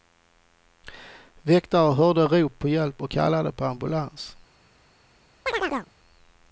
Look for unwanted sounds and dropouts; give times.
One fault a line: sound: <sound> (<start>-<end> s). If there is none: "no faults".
sound: chirp (5.5-5.9 s)